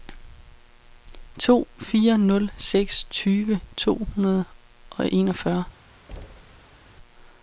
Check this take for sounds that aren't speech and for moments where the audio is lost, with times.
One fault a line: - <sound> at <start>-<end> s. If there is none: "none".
- thud at 6.1-6.9 s